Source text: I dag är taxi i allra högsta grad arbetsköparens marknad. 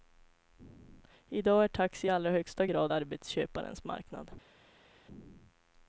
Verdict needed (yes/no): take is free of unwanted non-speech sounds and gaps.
yes